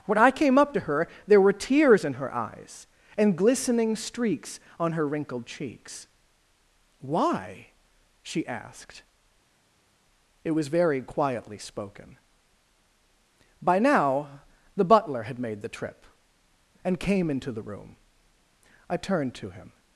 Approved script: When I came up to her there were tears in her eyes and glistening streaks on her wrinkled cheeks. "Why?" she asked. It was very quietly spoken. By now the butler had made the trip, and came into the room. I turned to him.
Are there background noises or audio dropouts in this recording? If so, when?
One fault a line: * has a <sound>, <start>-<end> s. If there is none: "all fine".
all fine